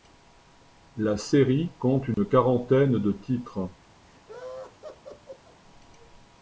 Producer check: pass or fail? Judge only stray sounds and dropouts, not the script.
fail